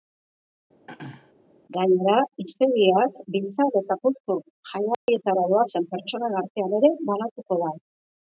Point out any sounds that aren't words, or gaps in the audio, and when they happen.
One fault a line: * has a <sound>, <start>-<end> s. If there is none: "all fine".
* has a throat clearing, 0.9-1.3 s
* has a dropout, 4.9-5.1 s